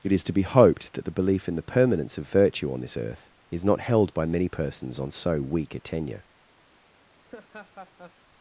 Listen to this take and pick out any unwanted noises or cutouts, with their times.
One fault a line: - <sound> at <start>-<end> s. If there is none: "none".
- laugh at 7.2-8.2 s